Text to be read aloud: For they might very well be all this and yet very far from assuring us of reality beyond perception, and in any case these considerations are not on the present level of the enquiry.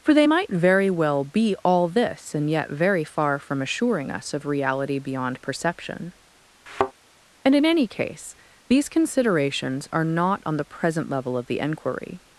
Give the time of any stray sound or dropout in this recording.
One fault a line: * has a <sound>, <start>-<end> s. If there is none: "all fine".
* has a thud, 6.7-6.9 s